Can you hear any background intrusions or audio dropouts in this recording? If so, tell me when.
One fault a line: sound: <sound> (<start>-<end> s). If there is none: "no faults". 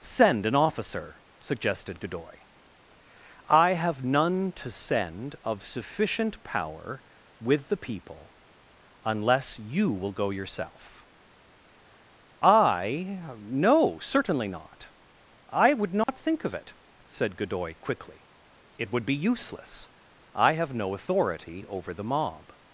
sound: dropout (16.0-16.1 s)